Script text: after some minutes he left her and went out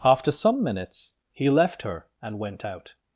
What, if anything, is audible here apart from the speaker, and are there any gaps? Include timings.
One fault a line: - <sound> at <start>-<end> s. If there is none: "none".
none